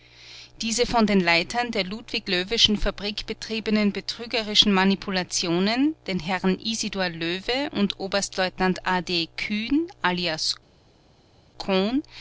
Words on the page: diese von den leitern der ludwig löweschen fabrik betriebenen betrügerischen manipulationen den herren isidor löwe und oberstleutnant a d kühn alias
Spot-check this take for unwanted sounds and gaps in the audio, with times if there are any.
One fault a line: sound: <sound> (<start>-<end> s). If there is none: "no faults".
no faults